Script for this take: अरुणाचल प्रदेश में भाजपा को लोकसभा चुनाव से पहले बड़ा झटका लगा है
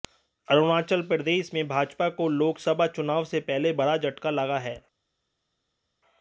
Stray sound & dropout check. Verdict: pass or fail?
pass